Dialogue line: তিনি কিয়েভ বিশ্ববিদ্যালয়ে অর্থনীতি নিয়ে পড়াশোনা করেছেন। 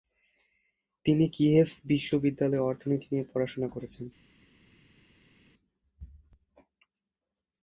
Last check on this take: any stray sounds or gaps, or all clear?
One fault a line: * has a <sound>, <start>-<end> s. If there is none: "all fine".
all fine